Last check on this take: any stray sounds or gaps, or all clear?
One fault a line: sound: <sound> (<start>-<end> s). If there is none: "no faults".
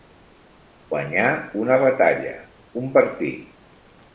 no faults